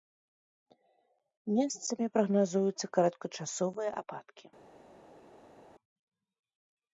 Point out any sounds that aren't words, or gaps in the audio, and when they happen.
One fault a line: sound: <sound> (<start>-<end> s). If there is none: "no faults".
no faults